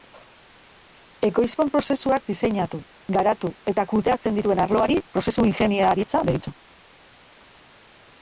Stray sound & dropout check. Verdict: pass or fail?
pass